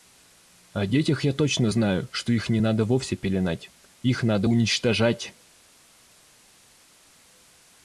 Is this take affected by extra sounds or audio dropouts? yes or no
no